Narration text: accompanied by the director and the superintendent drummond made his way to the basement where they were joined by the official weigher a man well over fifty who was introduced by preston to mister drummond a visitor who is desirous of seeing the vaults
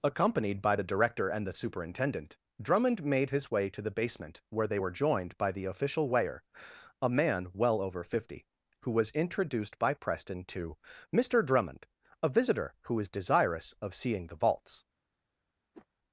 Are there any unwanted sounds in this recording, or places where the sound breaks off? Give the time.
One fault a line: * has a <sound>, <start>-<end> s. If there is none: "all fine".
* has a whoosh, 15.7-15.9 s